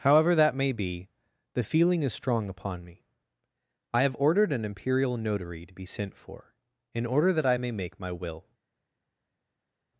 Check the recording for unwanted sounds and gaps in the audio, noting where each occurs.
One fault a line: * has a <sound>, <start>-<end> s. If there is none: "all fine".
all fine